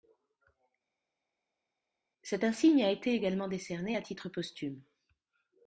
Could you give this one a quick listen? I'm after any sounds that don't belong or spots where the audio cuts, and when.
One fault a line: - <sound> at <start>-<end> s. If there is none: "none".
none